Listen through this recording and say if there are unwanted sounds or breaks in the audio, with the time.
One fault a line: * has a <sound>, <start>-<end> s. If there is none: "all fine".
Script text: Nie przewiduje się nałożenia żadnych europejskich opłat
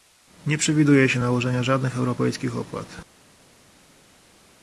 all fine